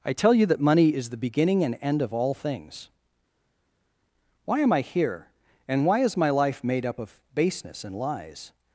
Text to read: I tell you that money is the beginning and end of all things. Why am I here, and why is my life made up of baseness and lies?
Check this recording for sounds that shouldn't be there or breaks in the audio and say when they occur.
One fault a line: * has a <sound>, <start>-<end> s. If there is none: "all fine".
all fine